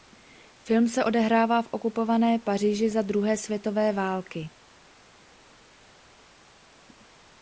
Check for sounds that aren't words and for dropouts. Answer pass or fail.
pass